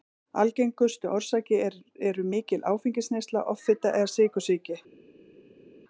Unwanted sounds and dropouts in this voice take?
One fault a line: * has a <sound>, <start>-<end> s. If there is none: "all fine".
all fine